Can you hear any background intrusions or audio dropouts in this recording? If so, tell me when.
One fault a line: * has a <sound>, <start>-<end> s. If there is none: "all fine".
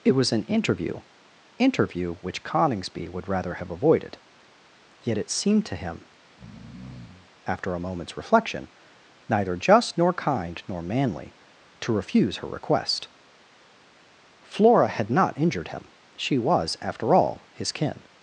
* has a breath, 6.2-7.3 s